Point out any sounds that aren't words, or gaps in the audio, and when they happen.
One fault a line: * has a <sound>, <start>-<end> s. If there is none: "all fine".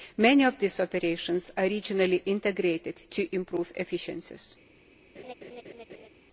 * has a laugh, 5.1-6.1 s